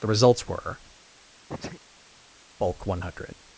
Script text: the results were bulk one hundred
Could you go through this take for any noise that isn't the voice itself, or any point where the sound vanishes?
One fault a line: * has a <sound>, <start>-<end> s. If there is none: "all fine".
* has a sneeze, 1.5-1.8 s